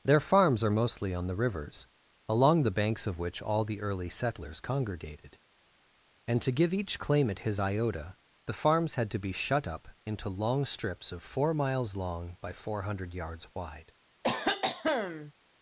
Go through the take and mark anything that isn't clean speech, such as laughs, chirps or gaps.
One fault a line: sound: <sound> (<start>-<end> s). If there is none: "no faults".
sound: cough (14.2-15.3 s)